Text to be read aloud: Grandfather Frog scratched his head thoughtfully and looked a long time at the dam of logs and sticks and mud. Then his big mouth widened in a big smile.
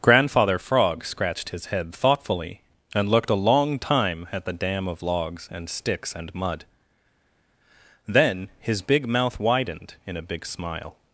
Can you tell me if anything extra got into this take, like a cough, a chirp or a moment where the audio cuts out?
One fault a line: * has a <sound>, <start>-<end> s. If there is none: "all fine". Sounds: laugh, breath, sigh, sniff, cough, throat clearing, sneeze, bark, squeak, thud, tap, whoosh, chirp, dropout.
all fine